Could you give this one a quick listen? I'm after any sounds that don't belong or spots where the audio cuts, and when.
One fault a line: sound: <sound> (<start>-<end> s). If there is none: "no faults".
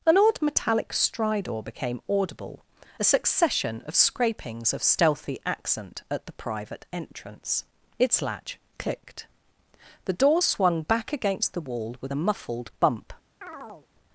sound: chirp (13.4-13.9 s)